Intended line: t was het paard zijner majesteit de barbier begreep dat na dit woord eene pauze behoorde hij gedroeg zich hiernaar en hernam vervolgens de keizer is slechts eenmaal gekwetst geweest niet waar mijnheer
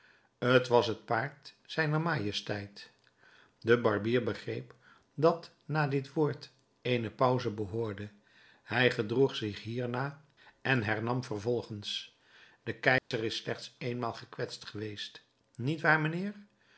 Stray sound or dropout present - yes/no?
yes